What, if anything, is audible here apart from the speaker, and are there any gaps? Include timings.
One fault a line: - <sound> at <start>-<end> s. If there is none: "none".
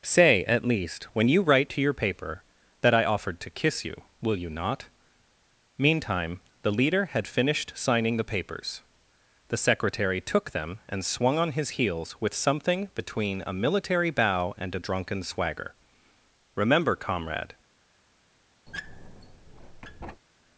- squeak at 18.7-20.2 s